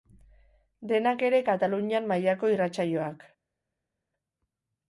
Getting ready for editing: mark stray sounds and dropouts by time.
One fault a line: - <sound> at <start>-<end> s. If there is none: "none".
none